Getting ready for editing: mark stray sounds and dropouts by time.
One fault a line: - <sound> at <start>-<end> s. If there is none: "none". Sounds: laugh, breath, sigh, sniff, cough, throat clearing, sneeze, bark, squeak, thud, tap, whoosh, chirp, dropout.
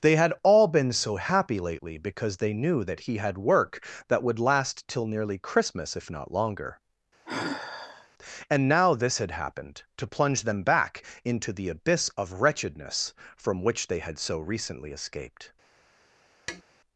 - sigh at 7.3-8.1 s
- tap at 16.5-16.6 s